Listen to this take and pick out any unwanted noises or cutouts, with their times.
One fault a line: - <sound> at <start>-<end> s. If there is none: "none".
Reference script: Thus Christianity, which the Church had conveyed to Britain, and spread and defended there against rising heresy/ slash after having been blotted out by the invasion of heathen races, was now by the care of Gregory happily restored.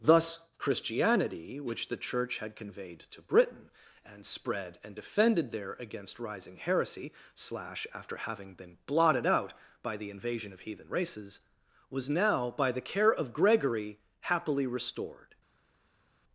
none